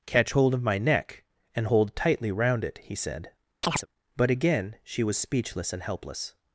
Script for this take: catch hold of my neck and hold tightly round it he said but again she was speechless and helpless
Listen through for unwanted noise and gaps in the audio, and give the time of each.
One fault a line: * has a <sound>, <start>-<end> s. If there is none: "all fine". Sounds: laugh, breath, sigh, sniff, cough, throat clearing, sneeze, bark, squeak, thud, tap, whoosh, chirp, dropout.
* has a chirp, 3.6-3.9 s